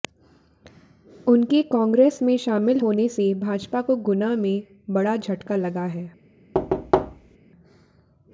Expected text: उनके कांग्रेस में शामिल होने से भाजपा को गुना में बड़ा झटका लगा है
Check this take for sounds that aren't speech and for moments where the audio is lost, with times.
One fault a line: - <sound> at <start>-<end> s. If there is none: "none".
- thud at 6.5-7.4 s